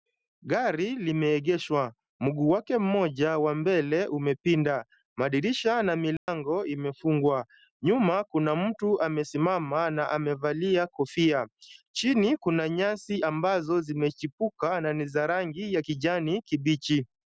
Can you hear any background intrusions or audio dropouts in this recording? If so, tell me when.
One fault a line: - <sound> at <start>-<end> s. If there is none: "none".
- dropout at 6.2-6.3 s